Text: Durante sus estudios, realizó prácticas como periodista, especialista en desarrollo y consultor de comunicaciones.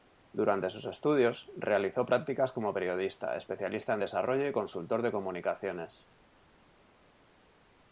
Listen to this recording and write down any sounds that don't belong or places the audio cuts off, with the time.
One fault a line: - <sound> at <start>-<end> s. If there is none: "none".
none